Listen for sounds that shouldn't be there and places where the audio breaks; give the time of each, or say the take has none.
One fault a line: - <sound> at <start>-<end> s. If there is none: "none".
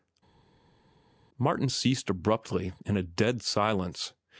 none